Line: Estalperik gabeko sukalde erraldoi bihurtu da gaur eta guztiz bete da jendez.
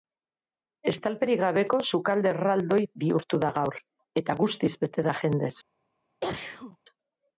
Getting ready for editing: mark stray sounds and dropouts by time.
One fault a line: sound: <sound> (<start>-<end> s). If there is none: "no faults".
sound: sneeze (6.2-6.8 s)